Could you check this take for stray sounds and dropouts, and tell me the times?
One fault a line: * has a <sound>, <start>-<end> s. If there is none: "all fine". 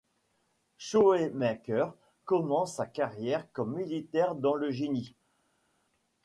all fine